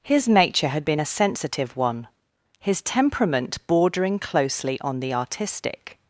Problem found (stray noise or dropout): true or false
false